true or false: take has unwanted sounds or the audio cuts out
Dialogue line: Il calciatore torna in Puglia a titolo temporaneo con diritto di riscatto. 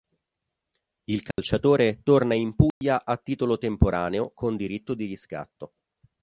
true